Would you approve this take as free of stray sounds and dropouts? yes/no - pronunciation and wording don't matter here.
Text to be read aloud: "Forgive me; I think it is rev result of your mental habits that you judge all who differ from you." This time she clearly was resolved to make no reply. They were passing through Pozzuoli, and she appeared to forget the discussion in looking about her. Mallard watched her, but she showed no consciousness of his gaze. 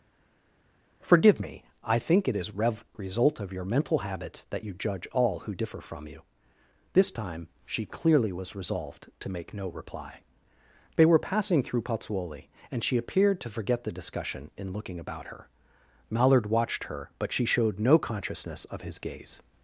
yes